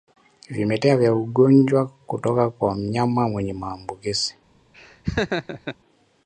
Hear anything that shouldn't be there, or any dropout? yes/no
yes